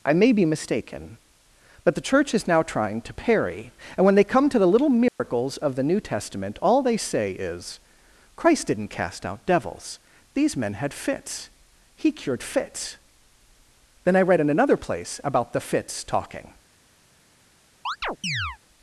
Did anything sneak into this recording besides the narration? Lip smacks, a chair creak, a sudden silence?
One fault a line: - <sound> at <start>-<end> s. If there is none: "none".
- dropout at 5.1-5.2 s
- chirp at 17.9-18.6 s